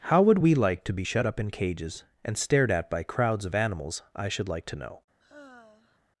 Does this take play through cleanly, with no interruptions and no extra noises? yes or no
no